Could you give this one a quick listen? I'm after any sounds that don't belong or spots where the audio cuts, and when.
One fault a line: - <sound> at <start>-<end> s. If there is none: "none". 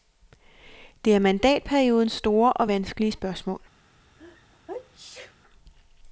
- sneeze at 4.2-5.4 s